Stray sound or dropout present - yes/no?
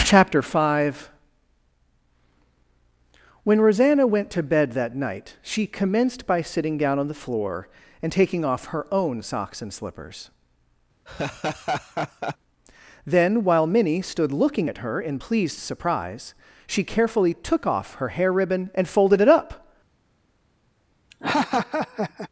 yes